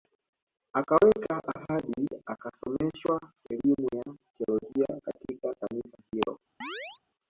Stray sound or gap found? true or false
true